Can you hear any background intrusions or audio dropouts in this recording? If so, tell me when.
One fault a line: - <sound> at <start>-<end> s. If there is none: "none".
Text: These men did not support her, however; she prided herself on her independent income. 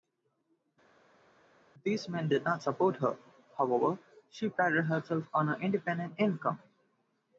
none